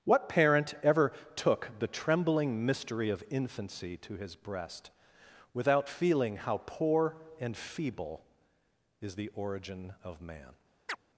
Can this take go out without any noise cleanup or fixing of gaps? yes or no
no